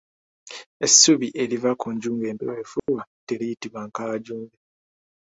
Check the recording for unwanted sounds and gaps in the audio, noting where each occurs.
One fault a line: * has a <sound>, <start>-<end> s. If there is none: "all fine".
* has a dropout, 2.8-2.9 s